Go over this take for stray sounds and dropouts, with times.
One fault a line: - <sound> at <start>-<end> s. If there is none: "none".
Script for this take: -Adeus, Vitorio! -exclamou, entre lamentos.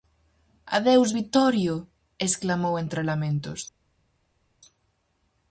none